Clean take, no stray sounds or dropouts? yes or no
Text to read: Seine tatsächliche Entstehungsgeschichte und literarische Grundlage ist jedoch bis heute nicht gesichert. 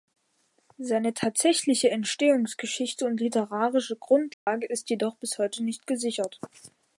no